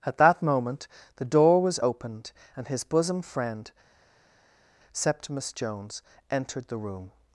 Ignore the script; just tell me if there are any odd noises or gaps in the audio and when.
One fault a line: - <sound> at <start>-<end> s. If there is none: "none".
none